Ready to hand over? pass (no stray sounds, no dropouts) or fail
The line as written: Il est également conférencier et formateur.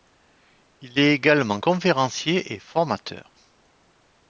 pass